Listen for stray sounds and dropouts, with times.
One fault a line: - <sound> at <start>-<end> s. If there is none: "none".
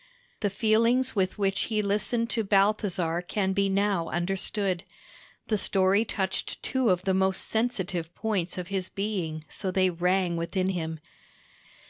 none